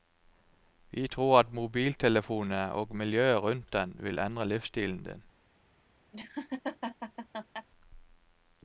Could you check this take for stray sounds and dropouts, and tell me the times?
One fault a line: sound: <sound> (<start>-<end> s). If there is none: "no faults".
sound: laugh (6.1-7.7 s)